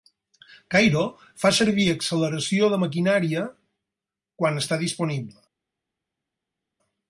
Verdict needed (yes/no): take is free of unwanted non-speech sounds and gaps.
yes